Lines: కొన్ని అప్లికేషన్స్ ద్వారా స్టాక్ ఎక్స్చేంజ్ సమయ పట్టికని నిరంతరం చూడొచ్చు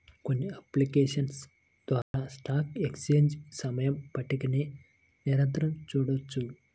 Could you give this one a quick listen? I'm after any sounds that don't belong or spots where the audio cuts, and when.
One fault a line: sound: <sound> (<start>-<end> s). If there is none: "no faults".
sound: dropout (2.0-2.1 s)